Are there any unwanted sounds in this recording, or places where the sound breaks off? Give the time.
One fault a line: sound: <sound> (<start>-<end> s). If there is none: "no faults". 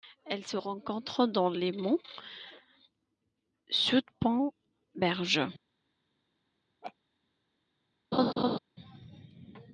sound: laugh (6.8-6.9 s)
sound: laugh (8.1-8.6 s)